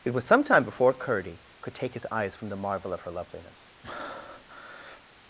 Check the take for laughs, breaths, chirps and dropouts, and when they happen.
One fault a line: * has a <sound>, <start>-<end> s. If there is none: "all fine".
* has a breath, 3.8-5.0 s